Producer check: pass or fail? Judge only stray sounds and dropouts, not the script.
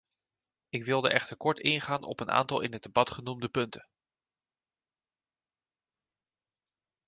pass